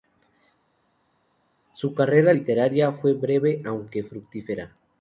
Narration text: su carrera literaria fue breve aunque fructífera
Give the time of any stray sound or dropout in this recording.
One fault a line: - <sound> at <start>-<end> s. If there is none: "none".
none